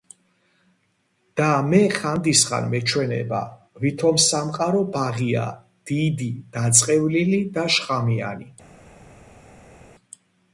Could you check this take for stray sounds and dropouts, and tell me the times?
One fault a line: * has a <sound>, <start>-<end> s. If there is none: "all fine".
all fine